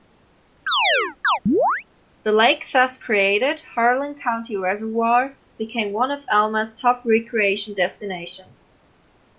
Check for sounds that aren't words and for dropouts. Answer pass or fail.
fail